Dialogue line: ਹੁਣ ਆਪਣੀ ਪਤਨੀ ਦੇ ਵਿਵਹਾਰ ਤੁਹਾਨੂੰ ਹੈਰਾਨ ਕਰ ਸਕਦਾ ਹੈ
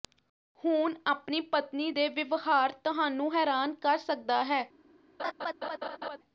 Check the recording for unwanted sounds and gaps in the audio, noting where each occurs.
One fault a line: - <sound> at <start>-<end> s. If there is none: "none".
- laugh at 5.2-6.2 s